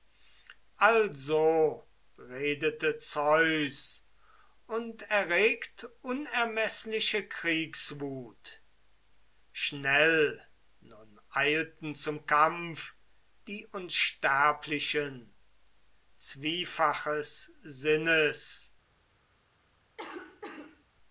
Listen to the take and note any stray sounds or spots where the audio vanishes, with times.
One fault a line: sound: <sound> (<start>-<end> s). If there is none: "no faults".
sound: cough (20.0-20.8 s)